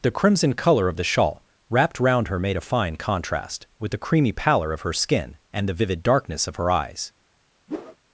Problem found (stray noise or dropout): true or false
true